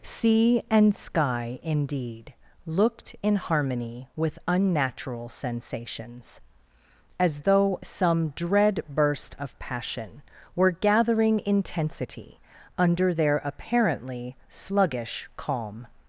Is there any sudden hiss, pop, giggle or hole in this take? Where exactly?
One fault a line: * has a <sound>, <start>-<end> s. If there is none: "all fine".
all fine